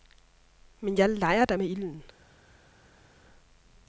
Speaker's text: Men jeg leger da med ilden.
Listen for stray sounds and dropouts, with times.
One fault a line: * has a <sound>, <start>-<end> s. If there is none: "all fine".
all fine